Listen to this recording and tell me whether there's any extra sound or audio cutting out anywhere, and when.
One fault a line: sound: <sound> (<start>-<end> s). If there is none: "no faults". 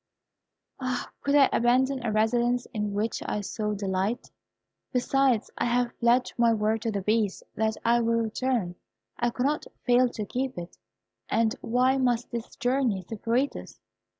no faults